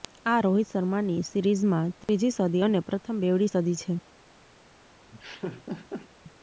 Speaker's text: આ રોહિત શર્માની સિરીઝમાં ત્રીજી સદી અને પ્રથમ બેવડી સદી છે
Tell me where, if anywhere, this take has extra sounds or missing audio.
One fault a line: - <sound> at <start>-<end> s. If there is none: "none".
- dropout at 2.0-2.1 s
- laugh at 5.1-6.1 s